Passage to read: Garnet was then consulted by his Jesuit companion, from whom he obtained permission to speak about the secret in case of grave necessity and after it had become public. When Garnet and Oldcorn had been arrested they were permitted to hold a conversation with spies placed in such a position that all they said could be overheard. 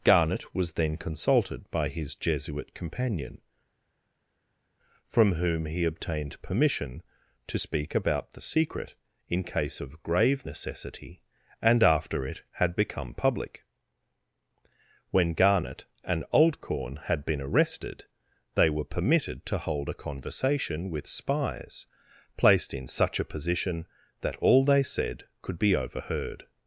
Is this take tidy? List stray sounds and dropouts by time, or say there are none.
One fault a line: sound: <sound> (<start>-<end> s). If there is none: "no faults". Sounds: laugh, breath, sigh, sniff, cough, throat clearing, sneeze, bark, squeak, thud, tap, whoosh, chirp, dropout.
no faults